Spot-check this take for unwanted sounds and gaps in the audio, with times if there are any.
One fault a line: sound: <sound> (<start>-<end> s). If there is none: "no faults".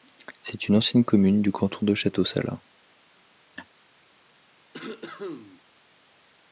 sound: laugh (3.6-3.7 s)
sound: cough (4.7-5.6 s)